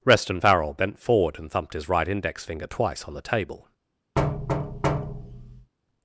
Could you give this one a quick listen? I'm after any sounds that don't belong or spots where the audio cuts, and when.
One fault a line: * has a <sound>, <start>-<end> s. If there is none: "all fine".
* has a thud, 4.2-5.7 s